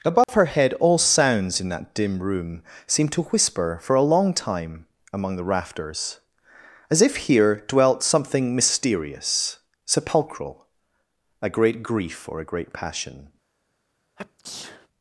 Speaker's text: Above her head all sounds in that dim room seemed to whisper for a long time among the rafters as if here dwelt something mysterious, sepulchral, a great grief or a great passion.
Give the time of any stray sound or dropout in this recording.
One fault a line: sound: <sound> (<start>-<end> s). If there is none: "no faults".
sound: dropout (0.2-0.3 s)
sound: sneeze (14.2-14.9 s)